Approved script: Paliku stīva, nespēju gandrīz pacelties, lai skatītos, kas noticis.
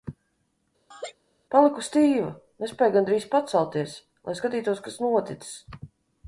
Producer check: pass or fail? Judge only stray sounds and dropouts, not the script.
fail